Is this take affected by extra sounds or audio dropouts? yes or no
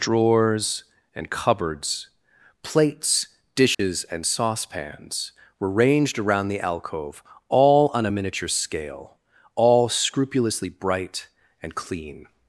yes